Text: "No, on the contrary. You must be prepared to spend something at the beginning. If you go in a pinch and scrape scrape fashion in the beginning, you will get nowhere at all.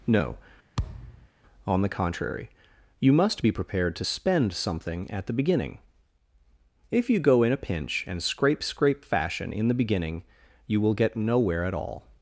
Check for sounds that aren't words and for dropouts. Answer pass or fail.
fail